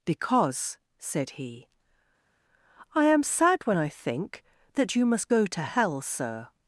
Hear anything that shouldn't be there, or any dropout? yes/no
no